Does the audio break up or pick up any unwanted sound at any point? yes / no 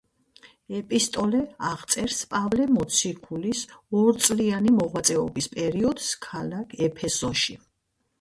no